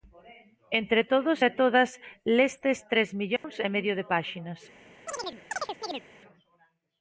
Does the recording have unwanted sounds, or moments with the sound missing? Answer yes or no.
yes